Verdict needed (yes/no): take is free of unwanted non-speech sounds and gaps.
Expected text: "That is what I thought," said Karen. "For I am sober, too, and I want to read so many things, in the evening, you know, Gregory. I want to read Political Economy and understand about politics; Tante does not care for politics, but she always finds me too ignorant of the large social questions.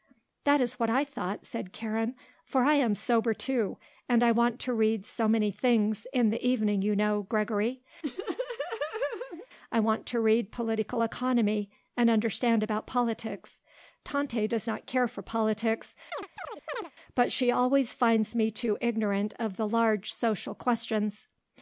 no